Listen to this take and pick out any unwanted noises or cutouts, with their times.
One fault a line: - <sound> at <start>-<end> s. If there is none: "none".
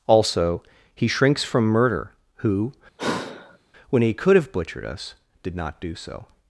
- sigh at 3.0-3.6 s